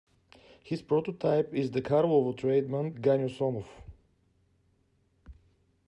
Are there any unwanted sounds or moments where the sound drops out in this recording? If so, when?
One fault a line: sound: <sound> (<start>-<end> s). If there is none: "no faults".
no faults